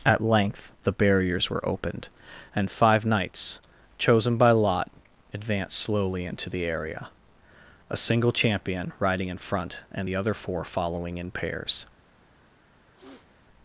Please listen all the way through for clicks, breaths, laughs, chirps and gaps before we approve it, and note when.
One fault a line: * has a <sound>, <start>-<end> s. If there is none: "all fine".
* has a sniff, 12.9-13.3 s